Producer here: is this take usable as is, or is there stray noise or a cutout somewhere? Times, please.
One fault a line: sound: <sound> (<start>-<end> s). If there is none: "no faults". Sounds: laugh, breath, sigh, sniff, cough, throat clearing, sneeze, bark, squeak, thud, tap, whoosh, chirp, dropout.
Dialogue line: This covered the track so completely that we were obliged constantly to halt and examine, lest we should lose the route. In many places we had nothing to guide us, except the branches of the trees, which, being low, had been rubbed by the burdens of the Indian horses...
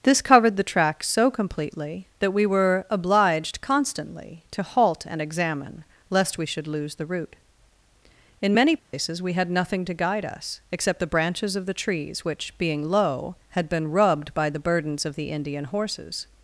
sound: dropout (8.8-8.9 s)